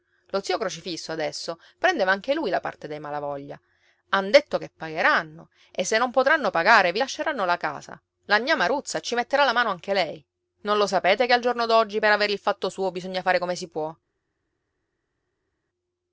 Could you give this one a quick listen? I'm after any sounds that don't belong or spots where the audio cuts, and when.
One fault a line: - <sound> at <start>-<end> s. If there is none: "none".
none